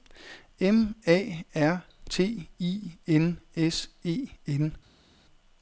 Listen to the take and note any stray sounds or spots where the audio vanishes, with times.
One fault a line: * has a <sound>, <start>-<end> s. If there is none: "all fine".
all fine